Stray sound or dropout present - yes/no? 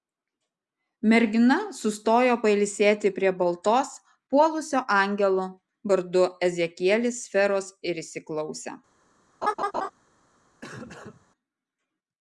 yes